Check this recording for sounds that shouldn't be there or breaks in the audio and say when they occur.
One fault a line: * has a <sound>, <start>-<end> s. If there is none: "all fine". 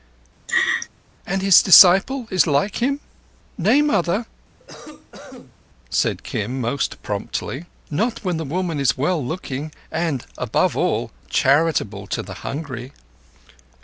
* has a laugh, 0.5-0.9 s
* has a cough, 4.6-5.6 s